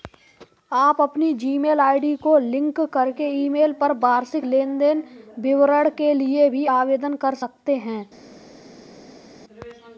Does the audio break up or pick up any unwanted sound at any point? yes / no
no